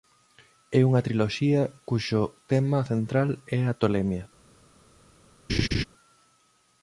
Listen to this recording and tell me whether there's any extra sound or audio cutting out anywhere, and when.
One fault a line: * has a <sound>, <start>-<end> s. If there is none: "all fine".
* has a laugh, 5.5-5.8 s